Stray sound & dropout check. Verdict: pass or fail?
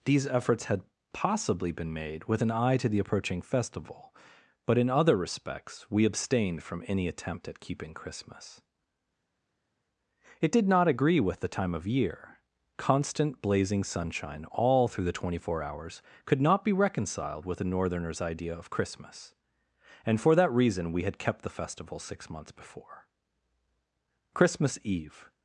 pass